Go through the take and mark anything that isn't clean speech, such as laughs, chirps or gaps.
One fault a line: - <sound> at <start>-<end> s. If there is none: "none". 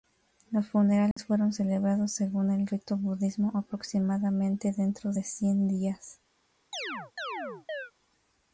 - dropout at 1.1-1.2 s
- chirp at 6.7-7.9 s